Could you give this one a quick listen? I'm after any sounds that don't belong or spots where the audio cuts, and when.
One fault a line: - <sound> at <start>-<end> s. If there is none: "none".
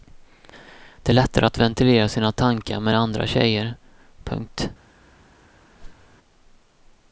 - whoosh at 5.8-6.2 s